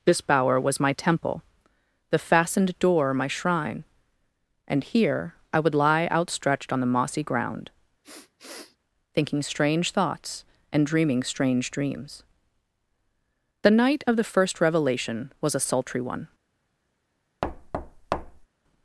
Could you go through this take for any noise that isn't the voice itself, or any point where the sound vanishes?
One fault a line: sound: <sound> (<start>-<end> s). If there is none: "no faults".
sound: sniff (8.0-8.8 s)
sound: thud (17.4-18.5 s)